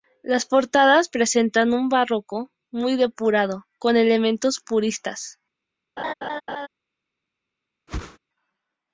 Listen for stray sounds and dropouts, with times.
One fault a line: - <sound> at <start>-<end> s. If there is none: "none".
- laugh at 6.0-6.7 s
- whoosh at 7.9-8.2 s